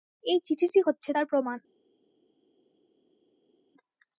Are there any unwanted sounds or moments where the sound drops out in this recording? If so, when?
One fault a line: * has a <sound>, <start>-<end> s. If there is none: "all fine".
all fine